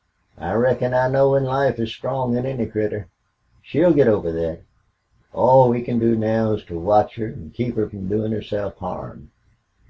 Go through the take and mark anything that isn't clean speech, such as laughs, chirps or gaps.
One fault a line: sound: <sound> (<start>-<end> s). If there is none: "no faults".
no faults